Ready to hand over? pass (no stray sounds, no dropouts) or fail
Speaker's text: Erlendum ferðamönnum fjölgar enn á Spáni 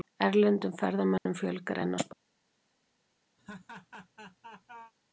fail